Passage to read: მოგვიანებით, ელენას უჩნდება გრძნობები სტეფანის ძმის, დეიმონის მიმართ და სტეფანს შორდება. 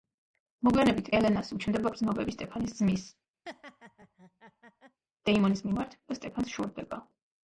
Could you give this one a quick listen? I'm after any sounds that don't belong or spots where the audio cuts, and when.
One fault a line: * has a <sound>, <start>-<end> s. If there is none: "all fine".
* has a laugh, 3.5-5.0 s